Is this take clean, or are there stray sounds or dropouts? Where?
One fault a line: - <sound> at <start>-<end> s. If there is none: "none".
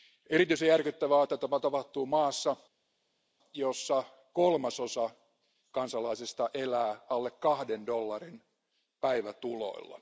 none